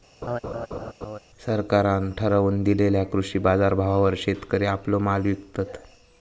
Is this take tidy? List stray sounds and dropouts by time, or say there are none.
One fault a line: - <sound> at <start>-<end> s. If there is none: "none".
- laugh at 0.2-1.2 s